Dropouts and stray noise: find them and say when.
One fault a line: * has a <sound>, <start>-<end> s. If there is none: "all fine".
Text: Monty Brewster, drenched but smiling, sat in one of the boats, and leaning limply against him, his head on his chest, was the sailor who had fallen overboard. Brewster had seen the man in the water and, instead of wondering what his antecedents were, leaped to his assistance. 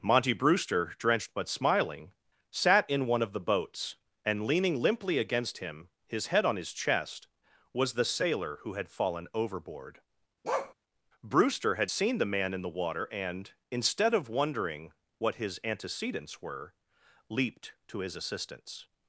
* has a bark, 10.4-10.7 s